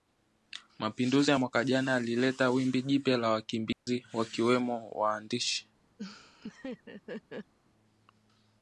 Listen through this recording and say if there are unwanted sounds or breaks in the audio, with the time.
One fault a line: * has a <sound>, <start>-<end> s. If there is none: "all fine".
* has a dropout, 3.7-3.9 s
* has a laugh, 6.0-7.5 s